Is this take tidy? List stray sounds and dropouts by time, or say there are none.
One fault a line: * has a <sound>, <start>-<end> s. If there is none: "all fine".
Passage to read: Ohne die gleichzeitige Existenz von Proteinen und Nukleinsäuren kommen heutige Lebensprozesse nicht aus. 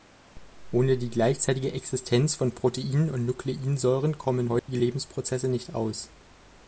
* has a dropout, 4.6-4.7 s